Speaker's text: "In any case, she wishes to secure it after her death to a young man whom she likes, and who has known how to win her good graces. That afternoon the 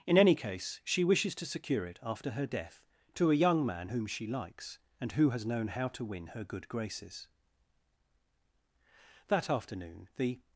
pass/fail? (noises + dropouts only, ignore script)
pass